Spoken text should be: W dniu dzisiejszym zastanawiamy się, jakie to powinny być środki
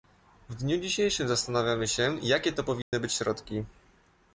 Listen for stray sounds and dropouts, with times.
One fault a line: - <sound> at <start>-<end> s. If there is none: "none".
- dropout at 2.8-2.9 s